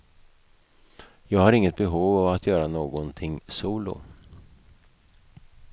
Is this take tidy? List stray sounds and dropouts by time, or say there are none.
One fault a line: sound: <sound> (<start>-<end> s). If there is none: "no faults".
no faults